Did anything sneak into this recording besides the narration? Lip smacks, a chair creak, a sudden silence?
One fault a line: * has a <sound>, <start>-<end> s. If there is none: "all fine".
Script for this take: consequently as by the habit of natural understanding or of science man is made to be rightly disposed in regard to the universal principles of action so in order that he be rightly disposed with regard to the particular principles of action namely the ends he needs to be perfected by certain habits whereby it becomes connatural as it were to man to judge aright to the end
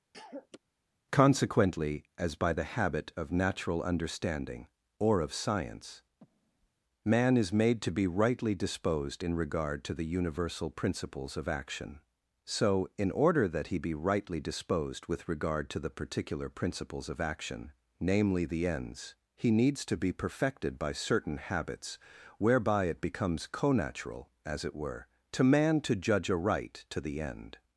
* has a cough, 0.1-0.6 s
* has a breath, 6.2-6.7 s